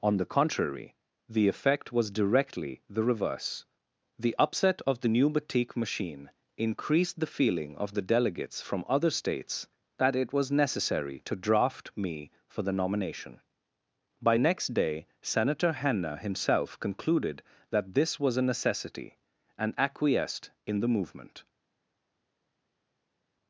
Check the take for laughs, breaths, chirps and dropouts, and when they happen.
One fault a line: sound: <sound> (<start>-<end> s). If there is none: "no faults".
no faults